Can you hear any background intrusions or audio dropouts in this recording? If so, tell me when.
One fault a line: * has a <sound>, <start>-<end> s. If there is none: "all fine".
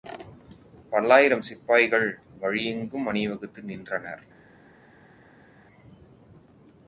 all fine